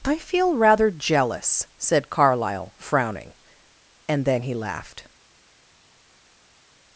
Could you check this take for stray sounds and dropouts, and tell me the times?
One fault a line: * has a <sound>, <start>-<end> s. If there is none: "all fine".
all fine